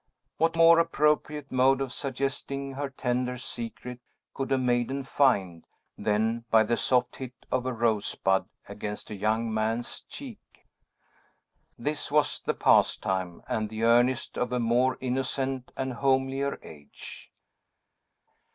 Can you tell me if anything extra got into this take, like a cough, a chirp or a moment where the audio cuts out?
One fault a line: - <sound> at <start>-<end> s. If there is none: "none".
none